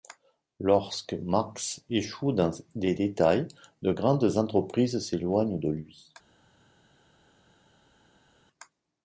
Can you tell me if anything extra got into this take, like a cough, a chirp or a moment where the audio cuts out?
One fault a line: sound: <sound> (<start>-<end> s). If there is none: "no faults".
no faults